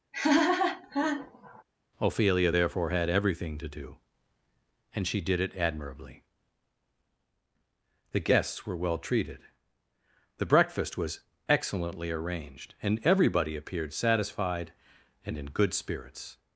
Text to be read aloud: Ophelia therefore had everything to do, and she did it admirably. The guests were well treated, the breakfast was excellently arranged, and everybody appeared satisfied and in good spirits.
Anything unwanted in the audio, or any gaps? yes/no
yes